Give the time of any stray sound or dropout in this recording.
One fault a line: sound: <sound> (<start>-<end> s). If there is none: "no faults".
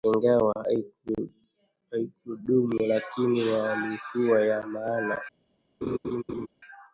sound: laugh (5.8-6.5 s)